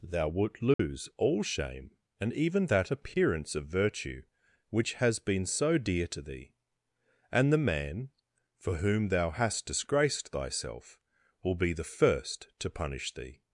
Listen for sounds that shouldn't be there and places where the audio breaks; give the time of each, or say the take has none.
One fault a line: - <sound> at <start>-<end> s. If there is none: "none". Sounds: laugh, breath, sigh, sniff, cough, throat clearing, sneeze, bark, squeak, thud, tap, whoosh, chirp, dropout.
- dropout at 0.7-0.8 s